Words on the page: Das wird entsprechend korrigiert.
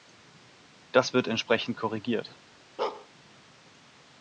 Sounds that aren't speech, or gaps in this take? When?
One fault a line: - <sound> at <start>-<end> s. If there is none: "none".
- bark at 2.8-3.1 s